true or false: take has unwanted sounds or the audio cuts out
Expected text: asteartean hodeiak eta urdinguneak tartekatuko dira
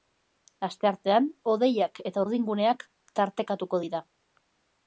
false